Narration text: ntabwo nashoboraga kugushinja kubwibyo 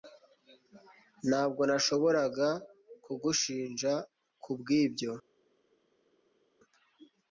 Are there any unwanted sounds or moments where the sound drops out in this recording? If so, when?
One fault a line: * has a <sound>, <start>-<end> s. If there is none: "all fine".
all fine